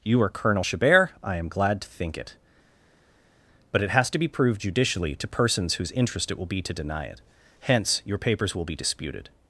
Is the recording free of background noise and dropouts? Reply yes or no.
yes